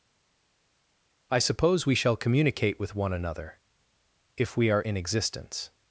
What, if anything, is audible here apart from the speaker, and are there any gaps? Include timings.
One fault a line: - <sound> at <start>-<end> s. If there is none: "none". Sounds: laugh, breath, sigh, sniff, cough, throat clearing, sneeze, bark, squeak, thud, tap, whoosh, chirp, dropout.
none